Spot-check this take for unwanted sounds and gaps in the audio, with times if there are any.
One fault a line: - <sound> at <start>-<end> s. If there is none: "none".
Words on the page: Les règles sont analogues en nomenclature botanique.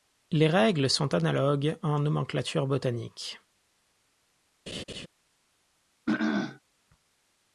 - laugh at 4.7-5.1 s
- throat clearing at 6.1-6.6 s